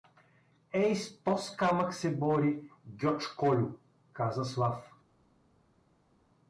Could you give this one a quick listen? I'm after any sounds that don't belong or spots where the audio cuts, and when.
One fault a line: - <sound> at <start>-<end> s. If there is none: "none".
none